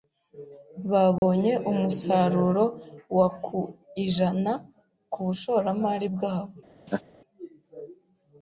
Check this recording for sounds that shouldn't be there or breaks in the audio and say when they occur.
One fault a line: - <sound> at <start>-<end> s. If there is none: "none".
- dropout at 1.2-1.2 s
- laugh at 6.9-7.0 s